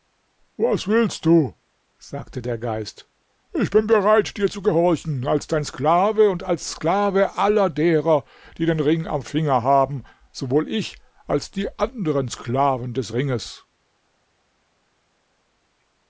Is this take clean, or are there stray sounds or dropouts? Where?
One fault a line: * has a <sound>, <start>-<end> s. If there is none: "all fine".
all fine